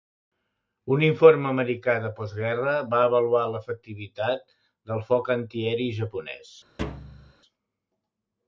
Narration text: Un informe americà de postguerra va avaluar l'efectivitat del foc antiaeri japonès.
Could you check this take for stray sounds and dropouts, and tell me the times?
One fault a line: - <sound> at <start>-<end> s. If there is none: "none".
- thud at 6.8-7.3 s